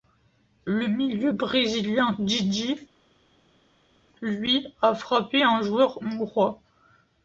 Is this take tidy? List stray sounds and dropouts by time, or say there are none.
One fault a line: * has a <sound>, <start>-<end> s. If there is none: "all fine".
all fine